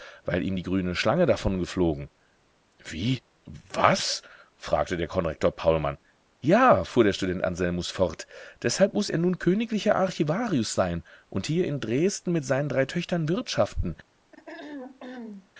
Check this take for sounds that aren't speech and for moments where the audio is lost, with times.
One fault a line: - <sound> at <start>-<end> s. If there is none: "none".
- throat clearing at 14.3-15.5 s